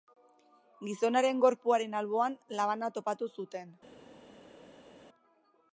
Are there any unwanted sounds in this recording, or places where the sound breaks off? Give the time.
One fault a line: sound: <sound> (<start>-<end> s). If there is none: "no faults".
no faults